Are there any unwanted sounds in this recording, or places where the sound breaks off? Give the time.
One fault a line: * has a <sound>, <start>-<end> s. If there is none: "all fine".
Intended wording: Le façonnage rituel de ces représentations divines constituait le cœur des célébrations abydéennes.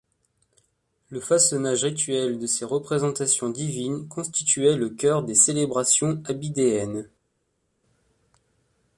all fine